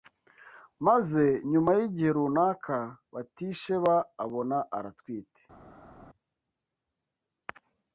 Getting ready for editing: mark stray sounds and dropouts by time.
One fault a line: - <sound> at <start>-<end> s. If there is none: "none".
none